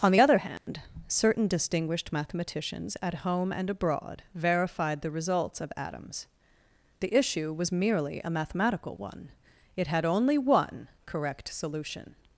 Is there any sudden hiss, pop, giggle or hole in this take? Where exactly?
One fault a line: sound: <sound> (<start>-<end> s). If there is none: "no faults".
sound: dropout (0.6-0.7 s)